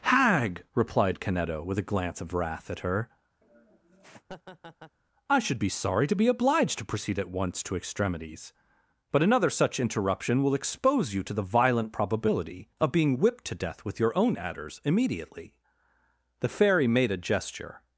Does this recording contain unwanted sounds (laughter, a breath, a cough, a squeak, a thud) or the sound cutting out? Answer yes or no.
yes